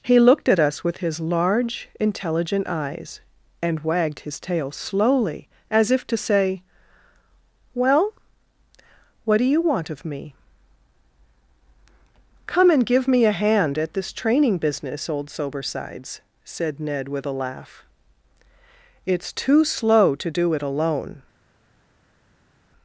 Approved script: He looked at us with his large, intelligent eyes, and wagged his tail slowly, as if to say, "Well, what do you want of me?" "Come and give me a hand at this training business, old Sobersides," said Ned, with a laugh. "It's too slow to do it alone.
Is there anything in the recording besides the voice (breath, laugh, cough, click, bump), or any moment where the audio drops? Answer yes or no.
no